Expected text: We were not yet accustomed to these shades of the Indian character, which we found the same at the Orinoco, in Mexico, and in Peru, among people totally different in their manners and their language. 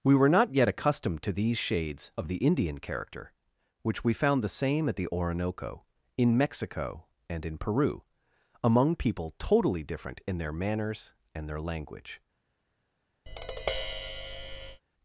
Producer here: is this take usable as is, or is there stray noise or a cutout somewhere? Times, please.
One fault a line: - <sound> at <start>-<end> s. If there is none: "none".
- tap at 13.3-14.8 s